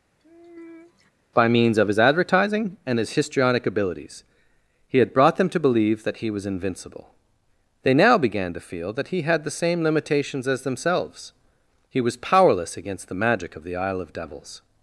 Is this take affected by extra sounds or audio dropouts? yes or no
yes